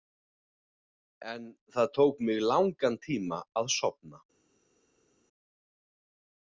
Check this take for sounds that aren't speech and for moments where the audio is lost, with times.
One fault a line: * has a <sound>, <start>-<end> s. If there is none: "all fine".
all fine